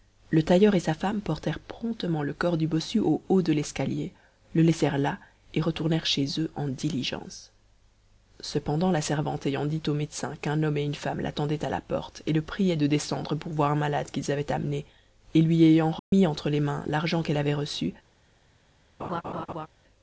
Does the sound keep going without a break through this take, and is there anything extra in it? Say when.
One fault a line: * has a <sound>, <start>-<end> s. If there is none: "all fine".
* has a dropout, 16.0-16.1 s
* has a laugh, 19.0-19.7 s